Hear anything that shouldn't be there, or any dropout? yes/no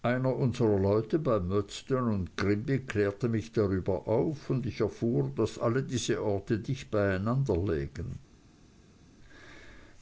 no